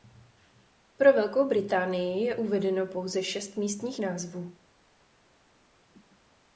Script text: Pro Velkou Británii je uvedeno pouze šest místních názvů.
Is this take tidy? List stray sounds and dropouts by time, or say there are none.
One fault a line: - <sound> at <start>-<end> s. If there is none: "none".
none